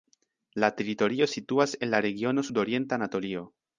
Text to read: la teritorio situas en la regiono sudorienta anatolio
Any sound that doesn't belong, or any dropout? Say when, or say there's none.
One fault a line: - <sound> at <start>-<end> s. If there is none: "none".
none